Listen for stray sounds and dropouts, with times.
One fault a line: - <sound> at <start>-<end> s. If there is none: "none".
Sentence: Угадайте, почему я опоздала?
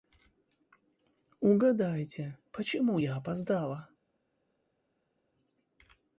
none